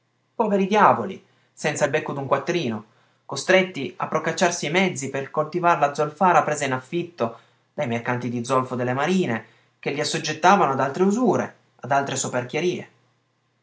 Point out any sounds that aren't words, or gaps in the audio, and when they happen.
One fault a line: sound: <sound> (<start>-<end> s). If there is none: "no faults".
no faults